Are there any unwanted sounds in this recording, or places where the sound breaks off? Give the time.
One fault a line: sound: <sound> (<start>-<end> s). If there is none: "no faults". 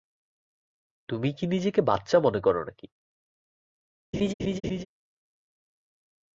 sound: laugh (4.1-4.9 s)